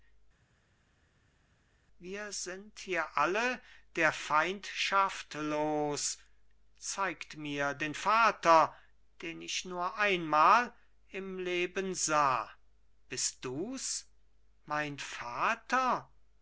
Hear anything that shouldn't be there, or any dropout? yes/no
no